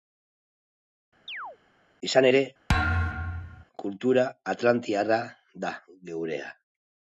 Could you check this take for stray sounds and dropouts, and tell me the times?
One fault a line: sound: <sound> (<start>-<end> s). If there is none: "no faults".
sound: chirp (1.3-1.6 s)
sound: thud (2.7-3.6 s)